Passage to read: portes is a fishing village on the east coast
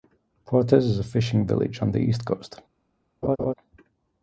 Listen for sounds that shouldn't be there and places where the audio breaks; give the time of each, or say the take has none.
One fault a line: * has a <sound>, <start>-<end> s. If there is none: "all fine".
* has a laugh, 3.2-3.5 s